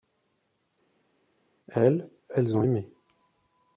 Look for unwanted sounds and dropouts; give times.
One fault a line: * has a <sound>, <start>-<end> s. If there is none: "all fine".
all fine